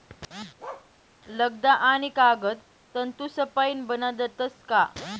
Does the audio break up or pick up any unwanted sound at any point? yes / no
yes